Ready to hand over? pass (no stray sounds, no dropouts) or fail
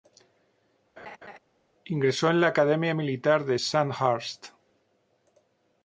fail